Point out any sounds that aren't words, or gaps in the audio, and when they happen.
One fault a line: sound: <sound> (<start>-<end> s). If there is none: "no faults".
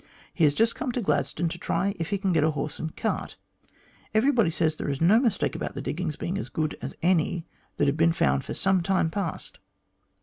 no faults